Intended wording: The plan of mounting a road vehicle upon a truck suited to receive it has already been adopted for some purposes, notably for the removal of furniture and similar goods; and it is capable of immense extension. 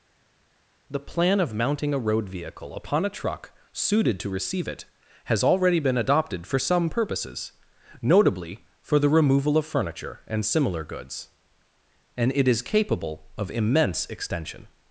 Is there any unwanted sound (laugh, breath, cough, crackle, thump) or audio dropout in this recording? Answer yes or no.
no